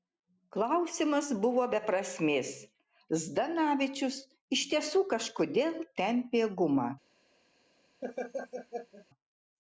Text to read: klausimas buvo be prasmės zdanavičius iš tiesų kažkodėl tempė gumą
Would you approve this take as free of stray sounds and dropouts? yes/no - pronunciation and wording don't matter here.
no